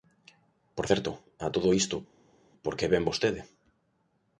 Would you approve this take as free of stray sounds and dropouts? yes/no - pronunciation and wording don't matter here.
yes